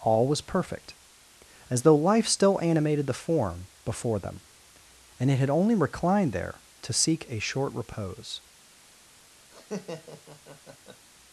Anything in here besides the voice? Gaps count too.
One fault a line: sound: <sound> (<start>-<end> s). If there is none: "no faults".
sound: laugh (9.5-11.1 s)